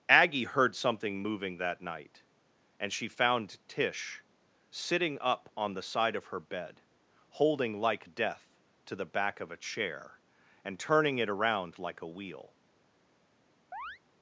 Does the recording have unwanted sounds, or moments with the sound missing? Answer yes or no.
yes